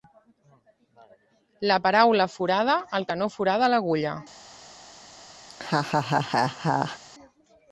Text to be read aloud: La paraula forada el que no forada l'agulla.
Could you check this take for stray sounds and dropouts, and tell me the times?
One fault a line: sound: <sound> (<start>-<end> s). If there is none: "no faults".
sound: laugh (5.5-7.0 s)